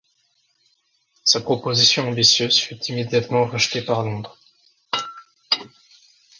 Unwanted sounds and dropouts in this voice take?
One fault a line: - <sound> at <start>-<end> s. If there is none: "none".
none